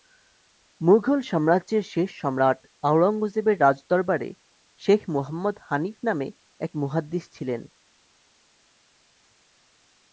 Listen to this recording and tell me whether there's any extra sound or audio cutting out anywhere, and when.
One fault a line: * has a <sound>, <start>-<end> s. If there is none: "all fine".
all fine